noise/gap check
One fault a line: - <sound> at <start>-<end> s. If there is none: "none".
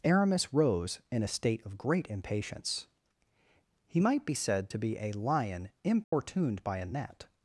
- dropout at 6.0-6.1 s